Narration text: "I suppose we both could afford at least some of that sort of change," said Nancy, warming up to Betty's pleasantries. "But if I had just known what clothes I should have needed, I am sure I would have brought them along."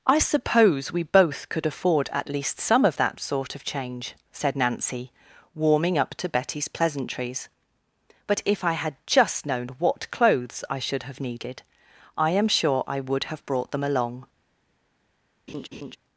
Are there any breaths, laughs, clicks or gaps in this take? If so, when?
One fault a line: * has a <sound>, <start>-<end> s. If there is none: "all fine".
* has a laugh, 15.5-16.0 s